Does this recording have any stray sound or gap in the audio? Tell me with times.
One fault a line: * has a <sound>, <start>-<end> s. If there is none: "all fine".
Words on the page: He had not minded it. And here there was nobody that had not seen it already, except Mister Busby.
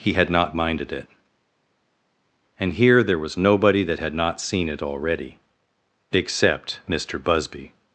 all fine